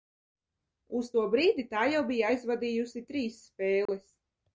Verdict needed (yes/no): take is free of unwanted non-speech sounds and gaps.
no